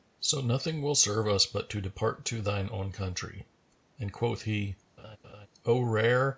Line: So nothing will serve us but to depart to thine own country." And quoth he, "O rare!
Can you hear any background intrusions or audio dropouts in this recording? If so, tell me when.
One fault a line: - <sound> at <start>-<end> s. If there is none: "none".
- laugh at 5.0-5.5 s